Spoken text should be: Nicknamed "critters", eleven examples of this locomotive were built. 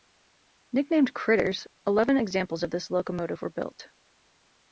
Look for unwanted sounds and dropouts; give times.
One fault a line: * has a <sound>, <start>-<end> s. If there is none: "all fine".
all fine